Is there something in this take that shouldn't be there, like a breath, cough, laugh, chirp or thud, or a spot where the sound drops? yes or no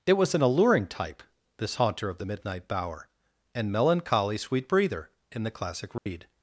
yes